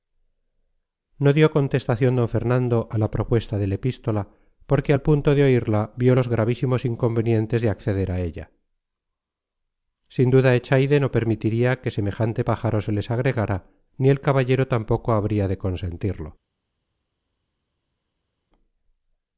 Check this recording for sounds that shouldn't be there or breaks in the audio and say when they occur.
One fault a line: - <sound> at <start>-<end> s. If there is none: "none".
none